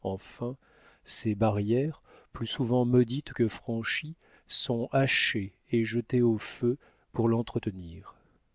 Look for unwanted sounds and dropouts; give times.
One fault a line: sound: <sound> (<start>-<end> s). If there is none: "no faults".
no faults